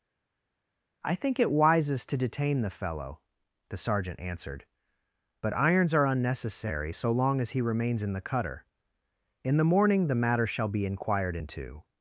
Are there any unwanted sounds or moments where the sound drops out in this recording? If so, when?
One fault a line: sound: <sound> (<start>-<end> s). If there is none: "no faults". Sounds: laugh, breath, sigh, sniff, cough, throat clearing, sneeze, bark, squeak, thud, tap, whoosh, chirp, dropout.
no faults